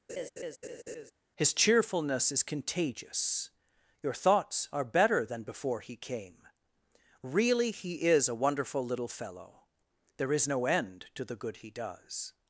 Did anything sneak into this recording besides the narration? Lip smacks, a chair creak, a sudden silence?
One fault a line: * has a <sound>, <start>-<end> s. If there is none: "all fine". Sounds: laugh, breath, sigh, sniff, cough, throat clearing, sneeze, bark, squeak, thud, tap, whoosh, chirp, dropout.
* has a laugh, 0.1-1.1 s